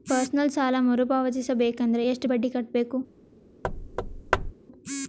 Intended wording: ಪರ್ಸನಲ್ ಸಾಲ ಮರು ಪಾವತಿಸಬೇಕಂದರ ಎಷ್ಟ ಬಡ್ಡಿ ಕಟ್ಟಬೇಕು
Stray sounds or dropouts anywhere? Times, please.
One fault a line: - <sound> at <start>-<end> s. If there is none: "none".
- thud at 3.6-4.5 s